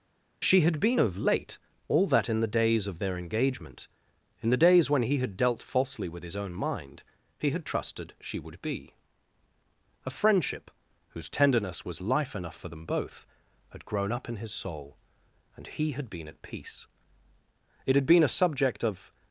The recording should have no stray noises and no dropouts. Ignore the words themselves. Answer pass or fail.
pass